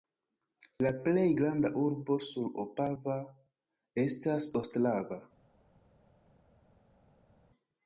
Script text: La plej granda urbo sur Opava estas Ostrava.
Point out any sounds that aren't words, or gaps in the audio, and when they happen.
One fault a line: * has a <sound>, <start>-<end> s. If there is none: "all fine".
all fine